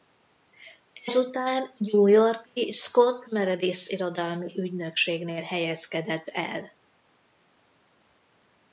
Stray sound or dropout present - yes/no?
no